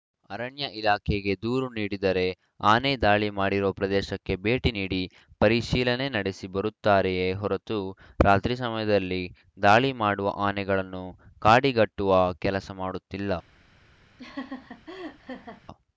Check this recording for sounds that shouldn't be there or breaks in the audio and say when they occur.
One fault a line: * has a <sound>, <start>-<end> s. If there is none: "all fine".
* has a laugh, 14.2-15.6 s